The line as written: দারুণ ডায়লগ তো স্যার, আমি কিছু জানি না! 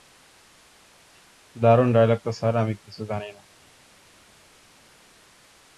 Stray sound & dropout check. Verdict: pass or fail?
pass